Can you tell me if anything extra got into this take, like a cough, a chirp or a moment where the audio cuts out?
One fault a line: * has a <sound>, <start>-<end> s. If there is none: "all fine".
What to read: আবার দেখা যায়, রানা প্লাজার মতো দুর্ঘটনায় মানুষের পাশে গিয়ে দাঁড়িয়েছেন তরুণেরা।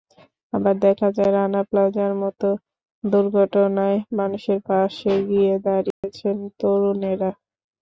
* has a dropout, 5.9-6.0 s